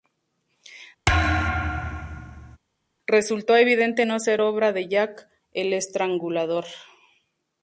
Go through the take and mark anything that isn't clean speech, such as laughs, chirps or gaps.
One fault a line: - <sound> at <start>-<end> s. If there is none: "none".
- thud at 1.1-2.6 s